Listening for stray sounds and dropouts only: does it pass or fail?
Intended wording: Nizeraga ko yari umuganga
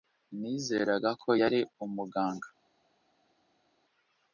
pass